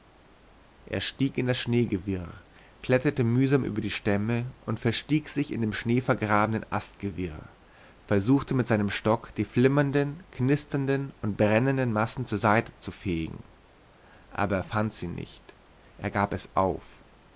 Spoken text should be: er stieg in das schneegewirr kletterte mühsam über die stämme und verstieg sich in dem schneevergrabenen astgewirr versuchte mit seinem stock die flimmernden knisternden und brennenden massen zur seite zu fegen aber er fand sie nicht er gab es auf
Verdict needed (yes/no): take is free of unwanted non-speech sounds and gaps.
yes